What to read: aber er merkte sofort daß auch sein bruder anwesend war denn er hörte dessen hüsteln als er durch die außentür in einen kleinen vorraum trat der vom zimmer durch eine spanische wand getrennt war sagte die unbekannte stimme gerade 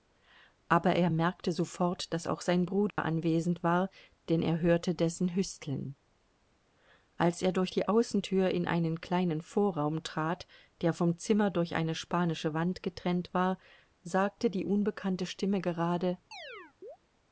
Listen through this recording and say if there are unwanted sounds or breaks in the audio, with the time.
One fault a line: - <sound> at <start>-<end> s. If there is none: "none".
- dropout at 2.9-3.0 s
- chirp at 16.3-17.0 s